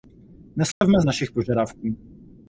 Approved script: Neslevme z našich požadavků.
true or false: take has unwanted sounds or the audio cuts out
true